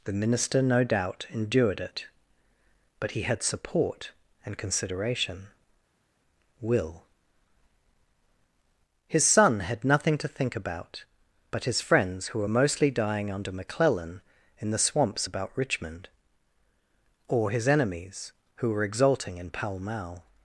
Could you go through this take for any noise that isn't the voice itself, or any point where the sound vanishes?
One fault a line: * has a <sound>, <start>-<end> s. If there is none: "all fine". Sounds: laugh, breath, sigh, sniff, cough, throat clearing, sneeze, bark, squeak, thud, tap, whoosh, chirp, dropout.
all fine